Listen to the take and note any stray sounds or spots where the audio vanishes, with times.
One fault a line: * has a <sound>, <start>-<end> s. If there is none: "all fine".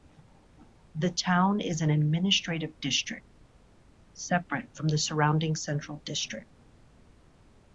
all fine